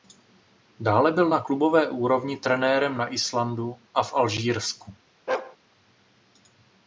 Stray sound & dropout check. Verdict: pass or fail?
fail